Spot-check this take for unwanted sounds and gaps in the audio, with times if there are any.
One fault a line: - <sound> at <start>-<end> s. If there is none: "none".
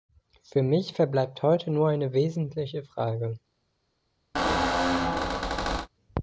- squeak at 4.3-5.9 s